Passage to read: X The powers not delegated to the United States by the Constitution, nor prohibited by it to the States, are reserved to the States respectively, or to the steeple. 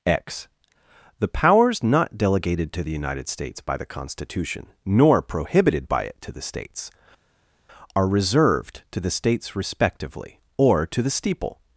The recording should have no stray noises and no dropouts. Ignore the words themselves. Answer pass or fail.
pass